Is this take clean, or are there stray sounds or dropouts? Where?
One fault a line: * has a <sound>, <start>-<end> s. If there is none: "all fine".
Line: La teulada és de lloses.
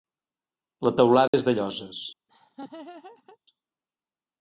* has a dropout, 1.3-1.3 s
* has a laugh, 2.3-3.4 s